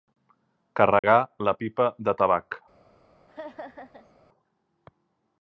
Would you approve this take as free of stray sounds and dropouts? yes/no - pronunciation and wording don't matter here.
no